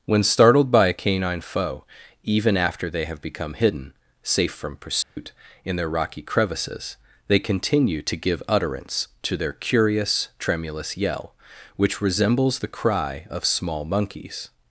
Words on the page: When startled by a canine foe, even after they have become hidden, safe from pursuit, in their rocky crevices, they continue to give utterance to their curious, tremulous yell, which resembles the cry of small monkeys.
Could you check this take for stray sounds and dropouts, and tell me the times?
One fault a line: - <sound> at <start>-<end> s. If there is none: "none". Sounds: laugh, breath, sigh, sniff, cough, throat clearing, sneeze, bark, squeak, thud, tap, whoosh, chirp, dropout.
- dropout at 5.0-5.2 s